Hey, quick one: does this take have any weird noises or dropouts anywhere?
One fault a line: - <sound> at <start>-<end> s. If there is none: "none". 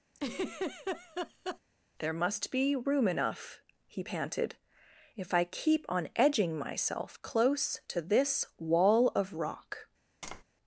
- laugh at 0.1-1.6 s
- tap at 10.2-10.4 s